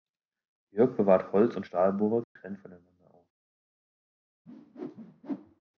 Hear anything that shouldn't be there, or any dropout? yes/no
yes